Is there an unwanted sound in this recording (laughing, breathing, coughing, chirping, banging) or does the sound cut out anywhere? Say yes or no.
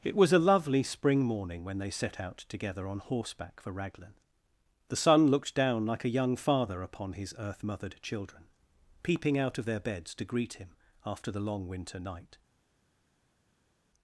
no